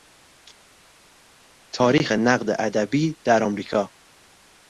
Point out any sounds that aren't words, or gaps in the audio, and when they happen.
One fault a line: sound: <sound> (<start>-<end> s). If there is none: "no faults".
no faults